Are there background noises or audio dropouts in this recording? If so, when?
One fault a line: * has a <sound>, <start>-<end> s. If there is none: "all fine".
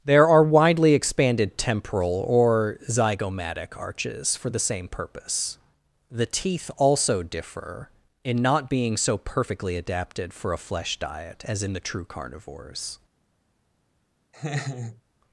* has a laugh, 14.3-15.0 s